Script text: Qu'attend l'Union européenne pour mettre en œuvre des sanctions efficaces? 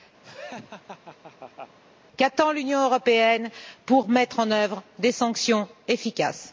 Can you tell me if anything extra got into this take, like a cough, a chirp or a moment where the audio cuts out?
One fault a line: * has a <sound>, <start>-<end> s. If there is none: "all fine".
* has a laugh, 0.2-1.8 s